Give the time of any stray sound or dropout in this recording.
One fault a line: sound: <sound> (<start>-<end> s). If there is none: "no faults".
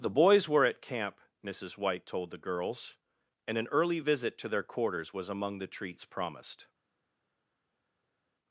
no faults